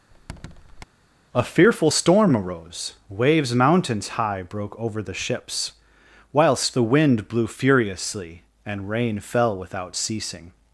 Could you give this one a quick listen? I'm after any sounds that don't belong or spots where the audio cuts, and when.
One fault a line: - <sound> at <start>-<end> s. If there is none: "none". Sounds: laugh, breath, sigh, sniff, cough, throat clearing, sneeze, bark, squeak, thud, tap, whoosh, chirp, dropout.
- squeak at 0.1-0.8 s